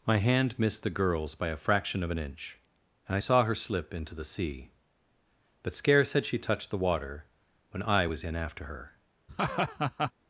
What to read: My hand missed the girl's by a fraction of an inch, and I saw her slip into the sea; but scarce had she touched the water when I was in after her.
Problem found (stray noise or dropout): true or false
true